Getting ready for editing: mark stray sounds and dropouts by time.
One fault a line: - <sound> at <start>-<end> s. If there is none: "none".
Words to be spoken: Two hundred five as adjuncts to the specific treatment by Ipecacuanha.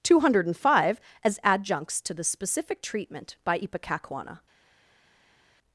none